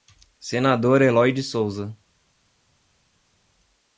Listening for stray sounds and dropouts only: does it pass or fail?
pass